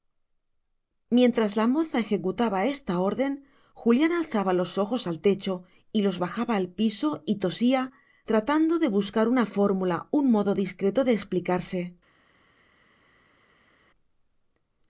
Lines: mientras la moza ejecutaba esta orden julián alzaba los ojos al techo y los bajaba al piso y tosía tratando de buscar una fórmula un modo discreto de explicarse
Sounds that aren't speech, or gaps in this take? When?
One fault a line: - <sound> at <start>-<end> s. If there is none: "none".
none